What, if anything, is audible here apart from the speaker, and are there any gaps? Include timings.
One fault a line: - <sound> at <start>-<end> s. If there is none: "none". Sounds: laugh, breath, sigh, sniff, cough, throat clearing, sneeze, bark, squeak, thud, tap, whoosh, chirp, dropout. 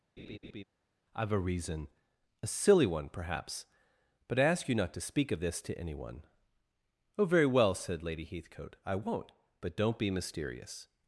- laugh at 0.2-0.6 s